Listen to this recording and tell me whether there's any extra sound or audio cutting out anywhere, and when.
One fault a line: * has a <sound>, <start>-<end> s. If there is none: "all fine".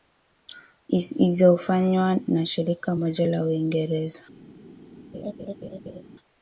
* has a laugh, 5.1-6.0 s